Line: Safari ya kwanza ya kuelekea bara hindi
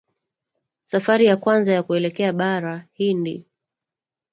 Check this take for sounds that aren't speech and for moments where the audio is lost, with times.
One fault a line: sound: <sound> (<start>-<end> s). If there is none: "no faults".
no faults